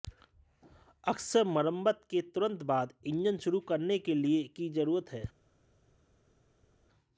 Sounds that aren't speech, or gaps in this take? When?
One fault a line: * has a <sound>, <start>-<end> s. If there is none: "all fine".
all fine